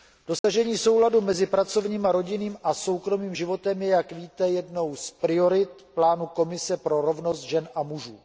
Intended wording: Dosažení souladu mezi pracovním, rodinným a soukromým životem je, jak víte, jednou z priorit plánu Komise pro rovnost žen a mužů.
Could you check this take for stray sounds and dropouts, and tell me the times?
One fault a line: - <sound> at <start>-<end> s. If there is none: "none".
- dropout at 0.4-0.4 s